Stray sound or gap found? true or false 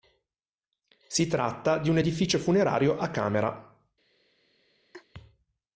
true